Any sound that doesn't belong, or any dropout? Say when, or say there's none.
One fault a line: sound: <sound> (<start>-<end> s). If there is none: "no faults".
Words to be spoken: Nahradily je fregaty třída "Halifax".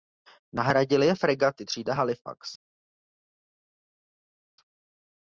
no faults